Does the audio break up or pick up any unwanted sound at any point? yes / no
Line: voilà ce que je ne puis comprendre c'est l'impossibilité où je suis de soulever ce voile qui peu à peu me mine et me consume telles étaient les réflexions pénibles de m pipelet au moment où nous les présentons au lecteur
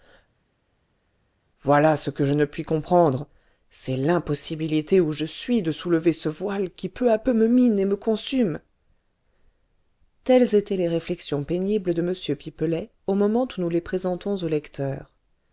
no